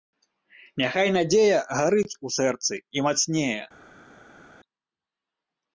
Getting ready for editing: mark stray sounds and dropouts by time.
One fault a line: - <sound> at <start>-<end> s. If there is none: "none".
none